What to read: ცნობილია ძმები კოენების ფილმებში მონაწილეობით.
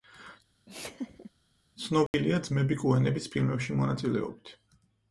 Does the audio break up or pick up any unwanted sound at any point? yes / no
yes